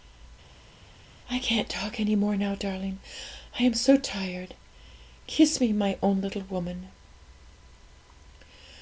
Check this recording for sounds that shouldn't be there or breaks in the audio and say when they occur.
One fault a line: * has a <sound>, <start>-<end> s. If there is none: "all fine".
all fine